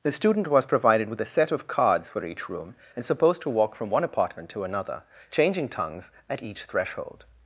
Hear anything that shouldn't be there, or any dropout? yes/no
no